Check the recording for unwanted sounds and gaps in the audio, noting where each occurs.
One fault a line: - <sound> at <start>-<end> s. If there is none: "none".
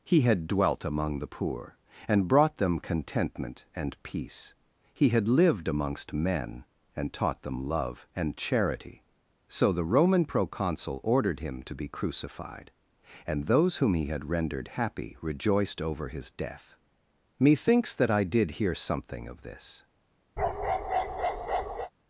- bark at 20.4-21.9 s